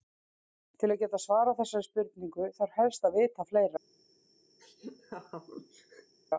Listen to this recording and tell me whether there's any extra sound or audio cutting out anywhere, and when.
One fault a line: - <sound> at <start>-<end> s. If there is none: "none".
- laugh at 4.6-6.1 s